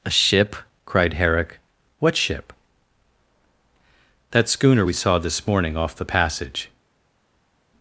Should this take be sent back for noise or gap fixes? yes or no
no